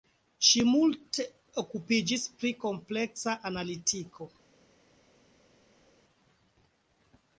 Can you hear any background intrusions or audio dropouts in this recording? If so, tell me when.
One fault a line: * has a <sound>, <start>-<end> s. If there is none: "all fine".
all fine